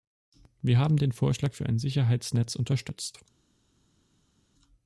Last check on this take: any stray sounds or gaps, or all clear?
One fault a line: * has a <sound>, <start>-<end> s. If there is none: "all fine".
all fine